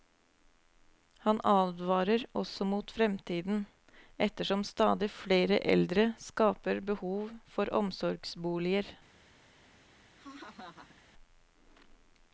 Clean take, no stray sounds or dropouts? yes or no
no